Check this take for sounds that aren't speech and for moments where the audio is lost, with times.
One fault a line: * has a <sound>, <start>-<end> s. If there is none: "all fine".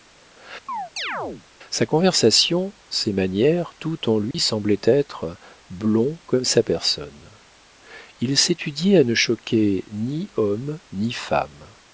* has a chirp, 0.7-1.4 s
* has a dropout, 4.3-4.3 s